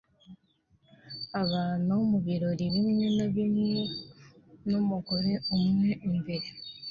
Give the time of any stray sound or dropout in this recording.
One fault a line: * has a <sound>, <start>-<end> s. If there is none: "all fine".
all fine